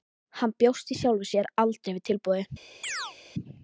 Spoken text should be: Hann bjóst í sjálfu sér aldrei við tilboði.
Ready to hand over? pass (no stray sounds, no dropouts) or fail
fail